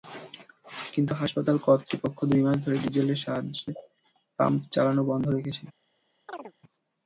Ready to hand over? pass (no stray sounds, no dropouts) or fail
fail